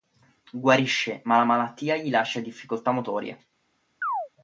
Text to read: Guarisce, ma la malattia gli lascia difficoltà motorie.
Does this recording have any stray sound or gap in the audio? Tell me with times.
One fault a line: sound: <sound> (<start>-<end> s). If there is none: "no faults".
sound: chirp (4.0-4.3 s)